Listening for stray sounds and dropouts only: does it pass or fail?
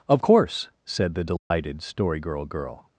fail